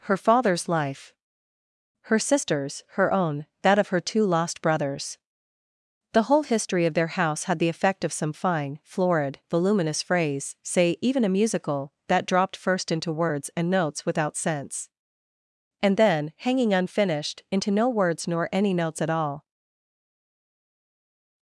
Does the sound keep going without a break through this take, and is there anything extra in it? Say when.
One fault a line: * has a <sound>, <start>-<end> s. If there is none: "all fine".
all fine